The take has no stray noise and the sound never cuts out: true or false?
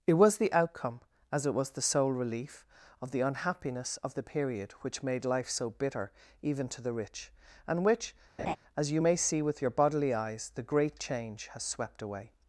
false